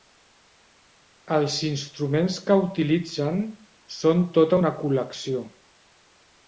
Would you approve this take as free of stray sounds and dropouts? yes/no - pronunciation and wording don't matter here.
yes